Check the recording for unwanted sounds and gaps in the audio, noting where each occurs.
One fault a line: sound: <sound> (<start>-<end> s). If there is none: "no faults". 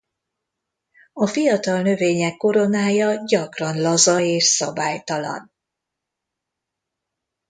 no faults